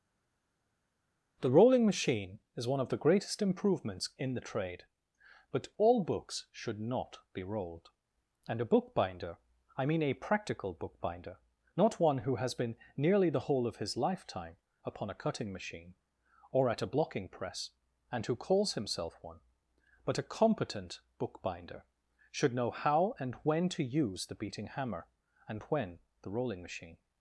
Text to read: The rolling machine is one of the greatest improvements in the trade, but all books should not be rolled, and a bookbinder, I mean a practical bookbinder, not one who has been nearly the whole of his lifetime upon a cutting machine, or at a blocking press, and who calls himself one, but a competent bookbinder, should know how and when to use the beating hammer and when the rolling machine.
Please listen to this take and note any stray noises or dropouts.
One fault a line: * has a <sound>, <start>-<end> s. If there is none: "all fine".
all fine